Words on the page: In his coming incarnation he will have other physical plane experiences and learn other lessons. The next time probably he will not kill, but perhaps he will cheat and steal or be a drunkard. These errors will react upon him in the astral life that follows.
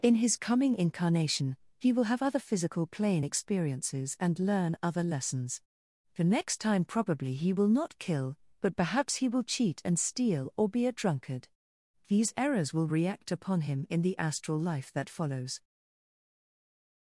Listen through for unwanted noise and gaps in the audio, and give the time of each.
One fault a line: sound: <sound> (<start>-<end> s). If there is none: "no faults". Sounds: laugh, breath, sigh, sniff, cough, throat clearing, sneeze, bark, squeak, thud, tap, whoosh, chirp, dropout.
no faults